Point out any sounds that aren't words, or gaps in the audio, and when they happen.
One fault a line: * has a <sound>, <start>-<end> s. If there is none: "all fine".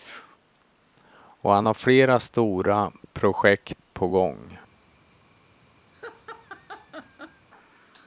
* has a laugh, 5.9-7.5 s